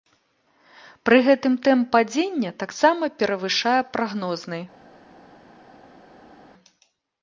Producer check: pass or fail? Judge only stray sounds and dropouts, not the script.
pass